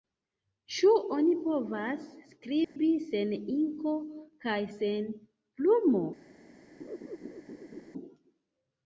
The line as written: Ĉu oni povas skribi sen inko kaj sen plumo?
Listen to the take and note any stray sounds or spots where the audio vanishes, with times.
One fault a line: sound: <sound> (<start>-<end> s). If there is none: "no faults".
sound: dropout (2.6-2.8 s)
sound: laugh (6.8-7.9 s)